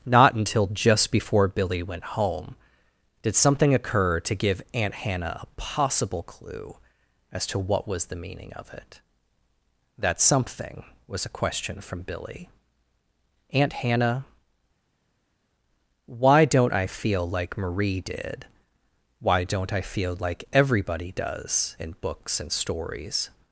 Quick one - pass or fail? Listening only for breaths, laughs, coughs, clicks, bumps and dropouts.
pass